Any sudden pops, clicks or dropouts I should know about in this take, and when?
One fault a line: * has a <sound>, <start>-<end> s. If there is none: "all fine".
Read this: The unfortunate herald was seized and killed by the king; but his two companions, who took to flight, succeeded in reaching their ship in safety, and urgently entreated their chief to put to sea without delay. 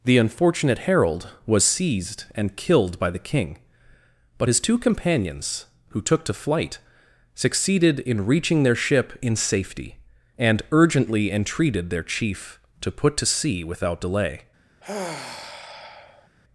* has a sigh, 14.8-16.3 s